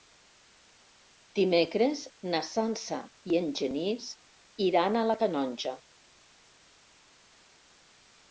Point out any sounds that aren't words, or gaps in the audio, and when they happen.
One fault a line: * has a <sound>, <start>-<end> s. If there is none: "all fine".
all fine